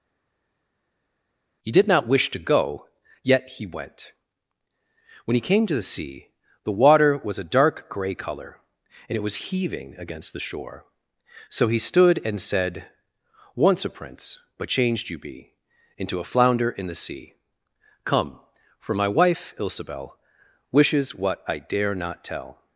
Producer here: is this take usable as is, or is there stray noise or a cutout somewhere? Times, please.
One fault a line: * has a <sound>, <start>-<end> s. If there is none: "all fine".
all fine